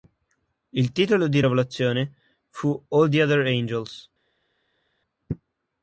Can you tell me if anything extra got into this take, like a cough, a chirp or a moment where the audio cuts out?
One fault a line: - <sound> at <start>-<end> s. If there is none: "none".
none